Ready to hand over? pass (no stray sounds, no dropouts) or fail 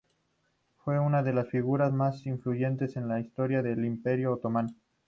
pass